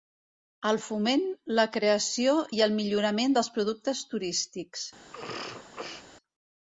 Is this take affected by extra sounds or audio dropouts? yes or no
yes